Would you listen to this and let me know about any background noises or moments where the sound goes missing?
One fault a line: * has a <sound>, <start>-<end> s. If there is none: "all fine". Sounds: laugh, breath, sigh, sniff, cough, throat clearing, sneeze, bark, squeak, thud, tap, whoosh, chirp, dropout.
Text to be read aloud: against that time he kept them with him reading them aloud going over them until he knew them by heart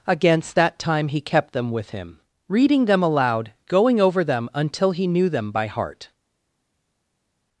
all fine